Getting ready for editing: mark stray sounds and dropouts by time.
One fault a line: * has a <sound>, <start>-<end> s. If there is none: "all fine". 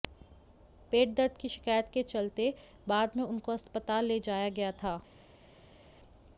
all fine